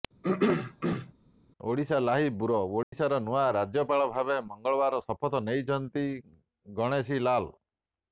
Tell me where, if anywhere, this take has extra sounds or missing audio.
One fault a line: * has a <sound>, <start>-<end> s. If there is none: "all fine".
* has a throat clearing, 0.2-1.1 s
* has a dropout, 2.8-2.9 s